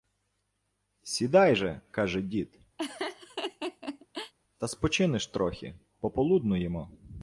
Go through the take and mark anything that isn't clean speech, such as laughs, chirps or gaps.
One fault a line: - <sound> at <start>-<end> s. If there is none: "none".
- laugh at 2.8-4.3 s